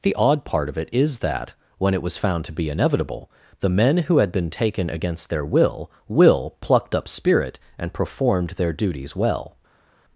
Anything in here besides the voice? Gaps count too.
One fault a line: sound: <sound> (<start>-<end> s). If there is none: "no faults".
no faults